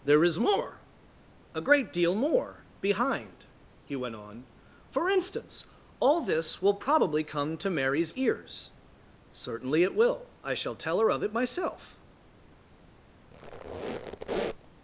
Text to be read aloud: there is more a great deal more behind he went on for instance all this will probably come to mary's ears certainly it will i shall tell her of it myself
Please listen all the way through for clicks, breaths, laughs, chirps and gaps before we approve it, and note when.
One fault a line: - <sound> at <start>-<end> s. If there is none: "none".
- squeak at 13.3-14.7 s